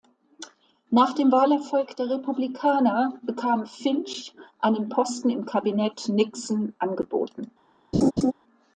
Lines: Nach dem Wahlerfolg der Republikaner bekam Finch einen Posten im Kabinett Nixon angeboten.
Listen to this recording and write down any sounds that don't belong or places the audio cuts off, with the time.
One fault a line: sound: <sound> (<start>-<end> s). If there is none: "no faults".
sound: laugh (7.9-8.3 s)